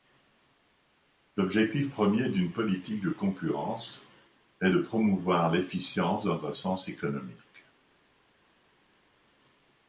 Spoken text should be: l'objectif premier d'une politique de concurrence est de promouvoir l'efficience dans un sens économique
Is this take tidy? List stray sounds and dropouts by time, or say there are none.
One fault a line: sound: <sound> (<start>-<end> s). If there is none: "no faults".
no faults